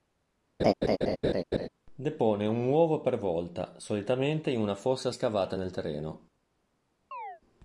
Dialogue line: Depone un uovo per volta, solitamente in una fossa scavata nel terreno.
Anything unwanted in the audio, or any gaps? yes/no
yes